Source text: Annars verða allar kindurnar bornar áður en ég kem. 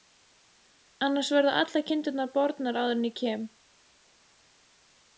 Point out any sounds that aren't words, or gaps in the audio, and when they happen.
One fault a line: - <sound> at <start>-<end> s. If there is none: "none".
none